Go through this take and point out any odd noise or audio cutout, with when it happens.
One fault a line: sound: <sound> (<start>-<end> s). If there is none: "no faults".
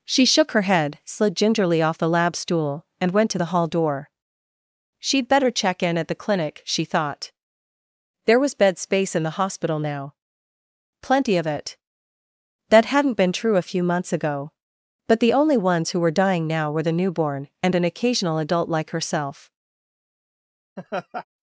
sound: laugh (20.8-21.3 s)